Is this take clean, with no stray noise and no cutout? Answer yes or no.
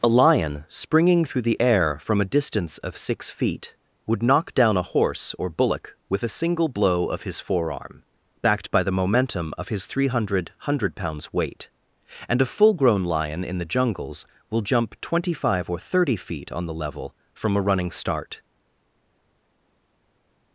yes